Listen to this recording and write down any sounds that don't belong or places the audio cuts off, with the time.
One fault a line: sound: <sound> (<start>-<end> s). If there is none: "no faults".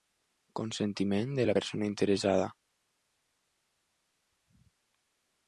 no faults